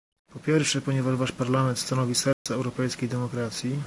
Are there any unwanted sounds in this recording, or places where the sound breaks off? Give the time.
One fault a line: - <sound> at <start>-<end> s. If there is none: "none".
- dropout at 2.3-2.5 s